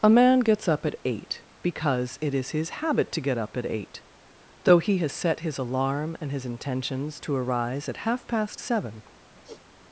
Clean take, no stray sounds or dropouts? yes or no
no